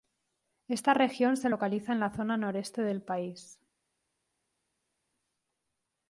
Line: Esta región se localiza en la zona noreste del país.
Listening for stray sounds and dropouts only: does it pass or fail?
pass